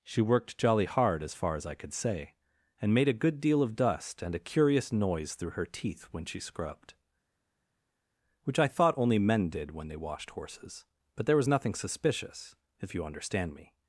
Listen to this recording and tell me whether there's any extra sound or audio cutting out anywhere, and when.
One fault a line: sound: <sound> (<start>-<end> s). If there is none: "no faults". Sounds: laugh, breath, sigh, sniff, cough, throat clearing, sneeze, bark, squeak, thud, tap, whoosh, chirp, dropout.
no faults